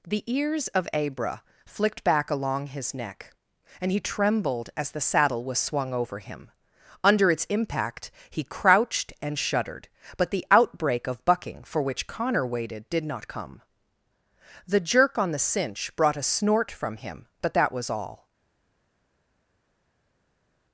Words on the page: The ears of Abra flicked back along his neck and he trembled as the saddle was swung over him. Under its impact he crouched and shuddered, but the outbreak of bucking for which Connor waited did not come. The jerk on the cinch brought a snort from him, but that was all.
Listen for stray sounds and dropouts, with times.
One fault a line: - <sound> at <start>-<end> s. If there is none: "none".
none